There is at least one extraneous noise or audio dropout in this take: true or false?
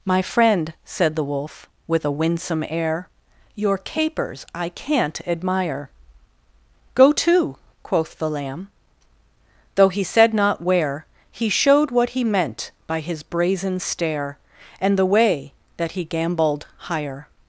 false